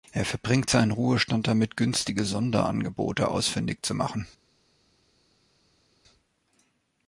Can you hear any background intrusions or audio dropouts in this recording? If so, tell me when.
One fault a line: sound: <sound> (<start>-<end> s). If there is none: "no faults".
no faults